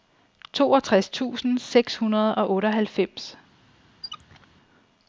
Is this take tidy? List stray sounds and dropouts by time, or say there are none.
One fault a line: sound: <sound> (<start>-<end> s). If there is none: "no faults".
sound: squeak (4.0-4.5 s)